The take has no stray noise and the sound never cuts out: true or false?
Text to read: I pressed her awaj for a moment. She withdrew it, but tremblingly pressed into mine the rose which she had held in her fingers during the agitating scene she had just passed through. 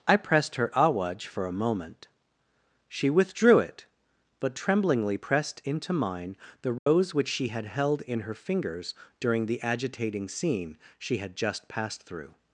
false